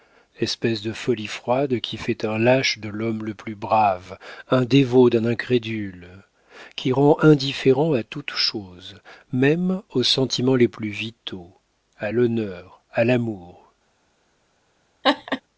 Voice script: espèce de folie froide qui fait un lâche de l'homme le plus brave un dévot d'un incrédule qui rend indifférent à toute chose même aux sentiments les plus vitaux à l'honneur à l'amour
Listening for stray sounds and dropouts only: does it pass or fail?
fail